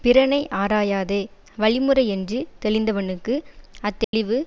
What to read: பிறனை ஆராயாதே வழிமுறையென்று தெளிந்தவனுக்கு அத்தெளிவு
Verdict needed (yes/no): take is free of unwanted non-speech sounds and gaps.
no